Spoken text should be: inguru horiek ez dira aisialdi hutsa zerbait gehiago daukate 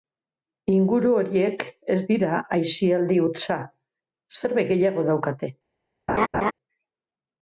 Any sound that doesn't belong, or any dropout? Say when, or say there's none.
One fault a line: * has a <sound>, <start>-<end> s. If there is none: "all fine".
* has a laugh, 6.1-6.5 s